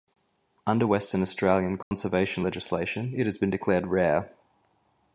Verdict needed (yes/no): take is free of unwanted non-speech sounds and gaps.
no